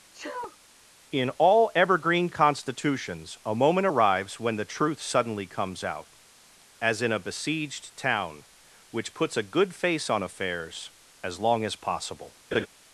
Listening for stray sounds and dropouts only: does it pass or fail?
fail